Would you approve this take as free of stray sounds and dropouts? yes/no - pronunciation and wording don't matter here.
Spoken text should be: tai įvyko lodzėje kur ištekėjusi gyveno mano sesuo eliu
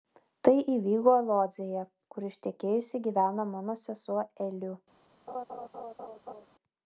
no